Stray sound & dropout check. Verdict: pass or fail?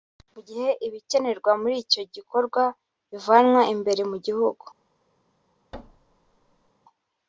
fail